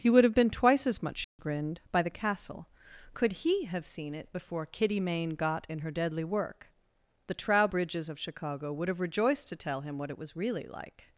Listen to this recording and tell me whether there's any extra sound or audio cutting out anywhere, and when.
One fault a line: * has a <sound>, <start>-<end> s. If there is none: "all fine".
* has a dropout, 1.2-1.4 s